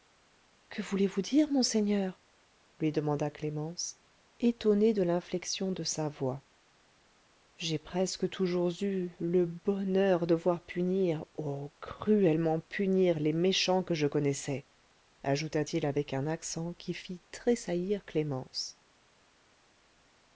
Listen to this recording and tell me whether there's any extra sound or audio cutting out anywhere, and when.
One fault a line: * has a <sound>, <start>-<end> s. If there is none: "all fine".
all fine